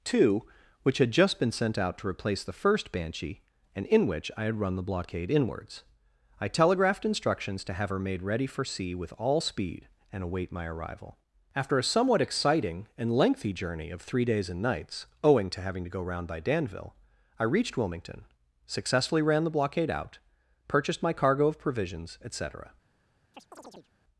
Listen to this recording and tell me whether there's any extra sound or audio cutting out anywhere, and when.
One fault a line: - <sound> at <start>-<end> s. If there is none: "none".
- chirp at 23.3-23.9 s